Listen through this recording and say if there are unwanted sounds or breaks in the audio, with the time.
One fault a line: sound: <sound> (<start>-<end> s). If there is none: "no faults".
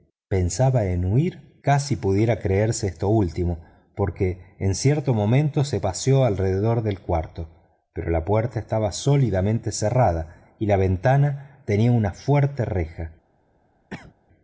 sound: cough (13.9-14.1 s)